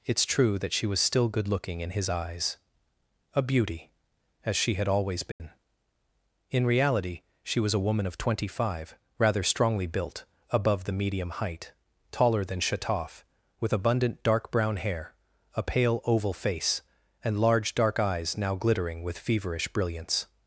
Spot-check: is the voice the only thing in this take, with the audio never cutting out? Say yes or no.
no